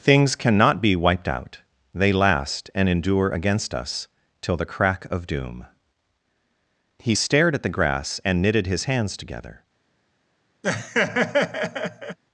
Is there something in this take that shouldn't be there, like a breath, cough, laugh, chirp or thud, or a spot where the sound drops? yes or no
yes